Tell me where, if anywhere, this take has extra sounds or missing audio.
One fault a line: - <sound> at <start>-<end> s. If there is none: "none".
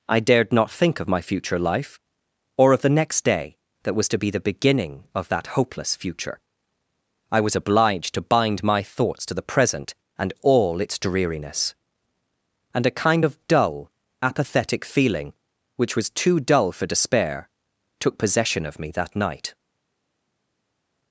none